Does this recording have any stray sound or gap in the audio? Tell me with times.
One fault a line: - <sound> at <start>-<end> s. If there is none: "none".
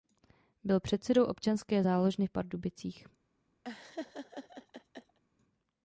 - laugh at 3.6-5.2 s